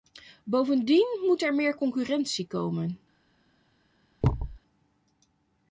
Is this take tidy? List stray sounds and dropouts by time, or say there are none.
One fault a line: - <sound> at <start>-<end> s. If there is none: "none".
- thud at 4.2-4.6 s